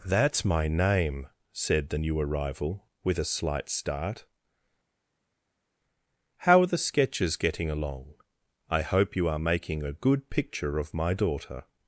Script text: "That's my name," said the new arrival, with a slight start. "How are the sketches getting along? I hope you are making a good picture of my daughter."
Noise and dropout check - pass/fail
pass